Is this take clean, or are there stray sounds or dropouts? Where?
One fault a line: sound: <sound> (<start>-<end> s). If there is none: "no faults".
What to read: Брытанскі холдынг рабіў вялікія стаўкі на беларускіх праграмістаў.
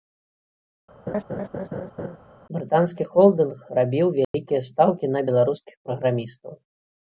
sound: laugh (1.1-2.2 s)
sound: dropout (4.2-4.3 s)